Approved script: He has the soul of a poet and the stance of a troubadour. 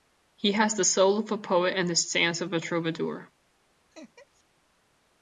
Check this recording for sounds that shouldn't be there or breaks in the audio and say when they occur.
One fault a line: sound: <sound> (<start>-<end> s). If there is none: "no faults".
sound: laugh (3.9-4.4 s)